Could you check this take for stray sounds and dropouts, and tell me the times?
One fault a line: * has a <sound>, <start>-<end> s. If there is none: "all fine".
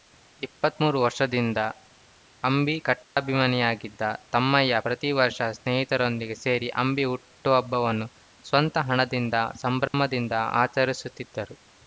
* has a dropout, 3.0-3.2 s
* has a dropout, 9.9-9.9 s